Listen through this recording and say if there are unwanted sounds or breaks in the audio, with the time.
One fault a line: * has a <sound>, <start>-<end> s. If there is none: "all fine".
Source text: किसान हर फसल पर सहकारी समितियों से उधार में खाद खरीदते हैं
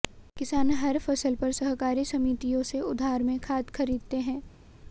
all fine